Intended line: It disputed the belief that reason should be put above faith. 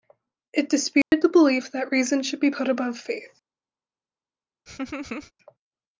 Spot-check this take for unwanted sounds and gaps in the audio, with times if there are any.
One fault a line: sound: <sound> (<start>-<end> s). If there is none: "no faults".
sound: dropout (1.0-1.1 s)
sound: laugh (4.7-5.3 s)